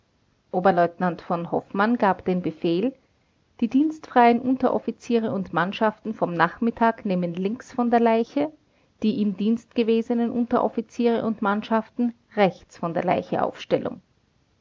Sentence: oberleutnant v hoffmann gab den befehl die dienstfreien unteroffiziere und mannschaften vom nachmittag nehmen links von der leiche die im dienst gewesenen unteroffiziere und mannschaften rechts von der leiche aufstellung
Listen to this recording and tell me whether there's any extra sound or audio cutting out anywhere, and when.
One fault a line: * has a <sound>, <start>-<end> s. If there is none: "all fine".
all fine